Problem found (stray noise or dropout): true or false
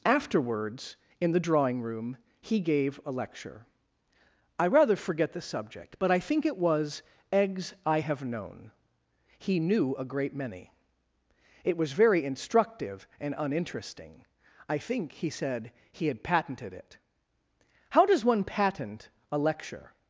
false